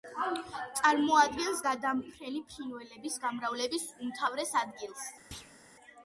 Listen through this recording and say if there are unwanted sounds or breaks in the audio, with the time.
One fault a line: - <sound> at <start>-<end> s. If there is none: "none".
- thud at 5.3-5.6 s